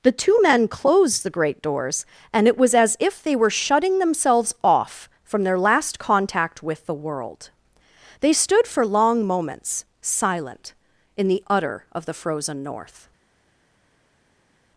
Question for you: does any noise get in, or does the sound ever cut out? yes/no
no